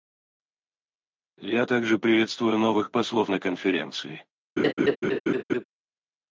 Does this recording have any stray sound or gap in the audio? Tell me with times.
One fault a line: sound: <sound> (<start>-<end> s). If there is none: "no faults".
sound: laugh (4.6-5.6 s)